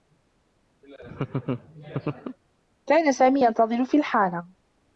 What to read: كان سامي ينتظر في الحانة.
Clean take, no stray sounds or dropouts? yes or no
no